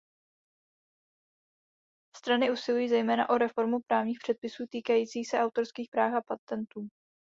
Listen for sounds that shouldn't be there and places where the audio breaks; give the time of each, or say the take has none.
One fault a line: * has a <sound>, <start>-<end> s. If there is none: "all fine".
all fine